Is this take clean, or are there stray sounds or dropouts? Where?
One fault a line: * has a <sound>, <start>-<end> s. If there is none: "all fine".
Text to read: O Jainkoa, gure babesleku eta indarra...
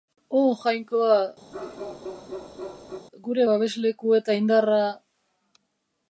* has a bark, 1.5-3.1 s